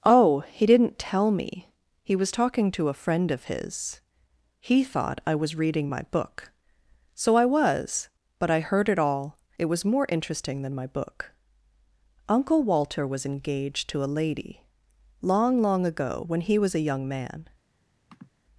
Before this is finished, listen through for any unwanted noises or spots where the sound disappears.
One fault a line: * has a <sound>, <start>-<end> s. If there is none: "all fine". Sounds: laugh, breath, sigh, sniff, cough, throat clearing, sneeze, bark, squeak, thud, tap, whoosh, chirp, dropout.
* has a sniff, 18.1-18.3 s